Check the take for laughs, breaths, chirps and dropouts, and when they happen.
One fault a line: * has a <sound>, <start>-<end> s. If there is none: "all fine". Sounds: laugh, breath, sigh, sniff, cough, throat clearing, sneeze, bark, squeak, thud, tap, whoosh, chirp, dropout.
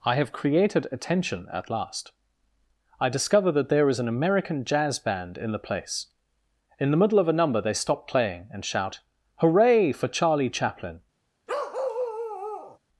* has a bark, 11.5-12.8 s